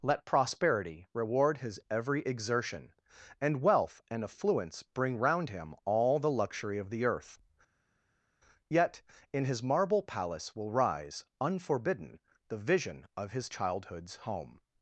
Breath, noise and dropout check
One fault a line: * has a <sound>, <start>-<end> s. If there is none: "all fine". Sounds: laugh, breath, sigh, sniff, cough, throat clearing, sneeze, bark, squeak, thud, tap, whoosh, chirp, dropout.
all fine